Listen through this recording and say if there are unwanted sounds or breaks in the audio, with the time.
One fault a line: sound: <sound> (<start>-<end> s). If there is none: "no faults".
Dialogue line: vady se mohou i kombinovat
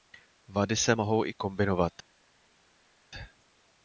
no faults